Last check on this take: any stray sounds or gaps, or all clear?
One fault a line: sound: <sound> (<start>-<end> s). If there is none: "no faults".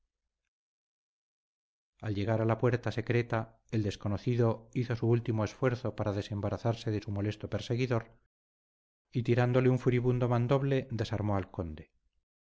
no faults